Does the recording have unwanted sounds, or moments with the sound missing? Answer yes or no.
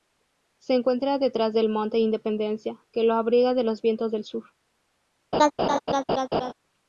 yes